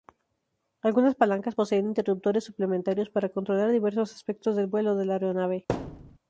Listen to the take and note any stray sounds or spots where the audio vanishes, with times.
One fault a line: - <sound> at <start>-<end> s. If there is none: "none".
- thud at 5.7-6.2 s